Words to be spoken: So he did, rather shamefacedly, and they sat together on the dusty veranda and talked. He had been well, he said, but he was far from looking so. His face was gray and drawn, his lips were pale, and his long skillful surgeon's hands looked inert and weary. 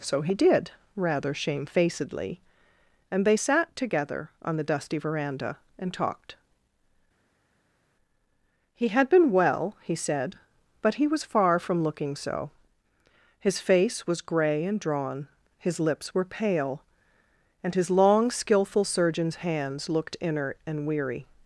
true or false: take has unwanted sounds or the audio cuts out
false